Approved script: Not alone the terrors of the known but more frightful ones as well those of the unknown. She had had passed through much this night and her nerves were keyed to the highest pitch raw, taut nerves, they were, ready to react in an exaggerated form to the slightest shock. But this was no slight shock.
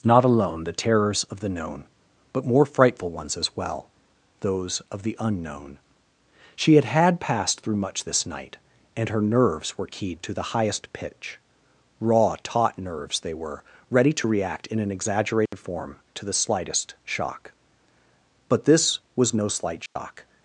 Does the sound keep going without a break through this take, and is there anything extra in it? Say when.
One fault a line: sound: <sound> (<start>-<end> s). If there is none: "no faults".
sound: dropout (15.5-15.5 s)
sound: dropout (19.9-20.0 s)